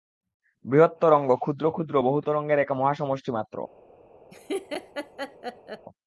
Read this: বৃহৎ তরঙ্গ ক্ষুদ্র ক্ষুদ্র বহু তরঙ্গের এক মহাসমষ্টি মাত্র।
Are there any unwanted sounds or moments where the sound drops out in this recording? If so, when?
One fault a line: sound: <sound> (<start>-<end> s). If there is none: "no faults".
sound: laugh (4.3-5.9 s)